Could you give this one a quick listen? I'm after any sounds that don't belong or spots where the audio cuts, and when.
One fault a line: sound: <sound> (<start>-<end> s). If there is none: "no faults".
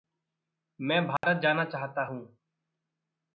sound: dropout (1.2-1.2 s)